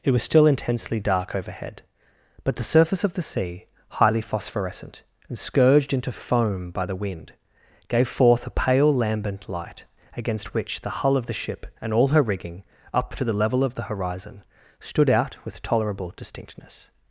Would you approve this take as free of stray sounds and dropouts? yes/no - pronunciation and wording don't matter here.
yes